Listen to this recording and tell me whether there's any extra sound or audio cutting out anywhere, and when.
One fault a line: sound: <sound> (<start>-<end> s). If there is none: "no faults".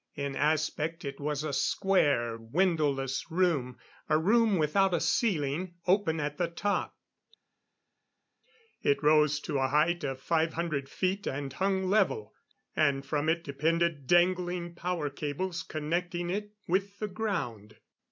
no faults